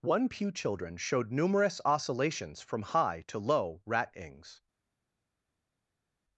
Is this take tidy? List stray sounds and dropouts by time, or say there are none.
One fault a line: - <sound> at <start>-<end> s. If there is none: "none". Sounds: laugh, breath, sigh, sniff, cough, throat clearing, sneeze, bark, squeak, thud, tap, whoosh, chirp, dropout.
none